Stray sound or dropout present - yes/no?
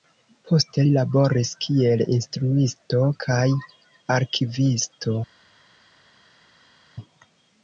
no